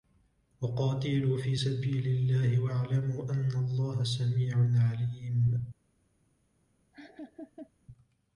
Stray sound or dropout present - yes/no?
yes